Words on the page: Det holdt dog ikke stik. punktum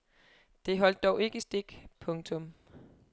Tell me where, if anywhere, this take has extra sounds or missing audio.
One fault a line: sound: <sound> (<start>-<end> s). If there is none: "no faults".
no faults